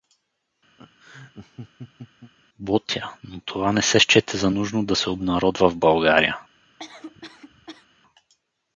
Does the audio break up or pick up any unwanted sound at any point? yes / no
yes